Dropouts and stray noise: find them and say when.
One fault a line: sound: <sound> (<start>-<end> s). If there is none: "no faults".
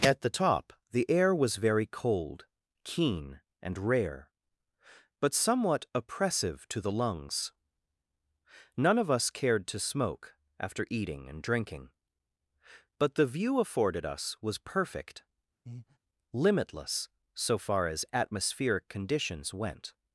sound: breath (15.7-16.0 s)